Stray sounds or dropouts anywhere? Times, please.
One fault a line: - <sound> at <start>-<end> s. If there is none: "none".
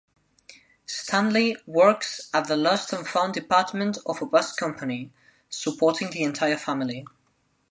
none